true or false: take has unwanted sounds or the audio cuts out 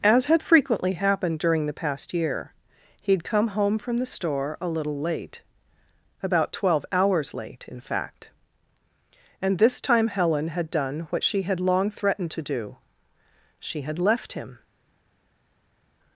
false